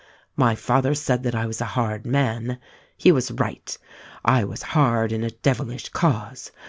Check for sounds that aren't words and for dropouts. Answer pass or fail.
pass